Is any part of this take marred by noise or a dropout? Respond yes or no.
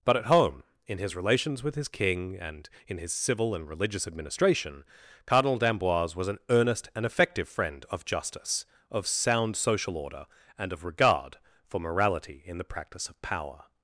no